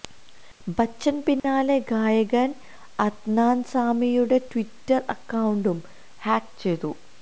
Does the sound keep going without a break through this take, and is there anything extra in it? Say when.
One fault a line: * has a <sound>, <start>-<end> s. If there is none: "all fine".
* has a dropout, 1.4-1.4 s